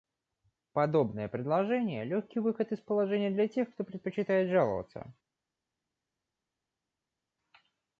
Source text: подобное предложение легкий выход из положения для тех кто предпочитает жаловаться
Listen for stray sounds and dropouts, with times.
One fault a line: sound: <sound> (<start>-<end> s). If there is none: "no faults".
no faults